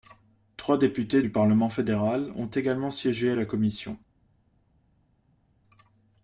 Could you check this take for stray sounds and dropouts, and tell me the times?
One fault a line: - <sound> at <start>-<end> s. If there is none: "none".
none